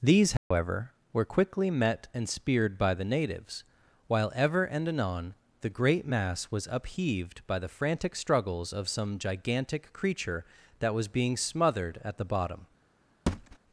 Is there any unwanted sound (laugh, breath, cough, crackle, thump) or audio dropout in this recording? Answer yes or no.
yes